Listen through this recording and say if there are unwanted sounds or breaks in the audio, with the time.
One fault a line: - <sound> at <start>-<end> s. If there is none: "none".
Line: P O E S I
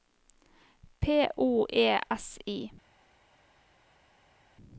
none